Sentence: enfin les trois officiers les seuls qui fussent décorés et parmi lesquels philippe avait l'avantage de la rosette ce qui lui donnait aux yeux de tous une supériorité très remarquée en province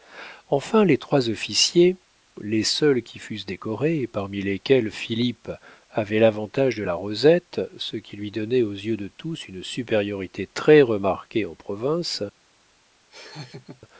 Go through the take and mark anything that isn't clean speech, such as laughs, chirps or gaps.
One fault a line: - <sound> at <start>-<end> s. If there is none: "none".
- laugh at 13.1-13.8 s